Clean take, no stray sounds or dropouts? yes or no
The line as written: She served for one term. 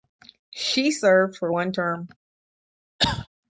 no